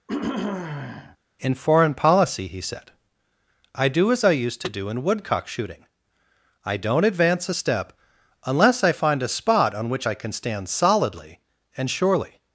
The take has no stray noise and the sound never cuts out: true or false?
false